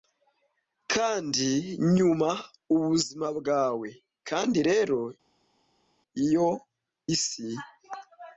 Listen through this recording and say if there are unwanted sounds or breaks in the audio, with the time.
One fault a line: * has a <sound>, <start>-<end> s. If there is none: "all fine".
all fine